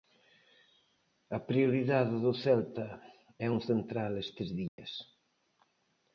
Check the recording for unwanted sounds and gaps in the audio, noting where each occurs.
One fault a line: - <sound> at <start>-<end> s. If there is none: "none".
- dropout at 4.7-4.8 s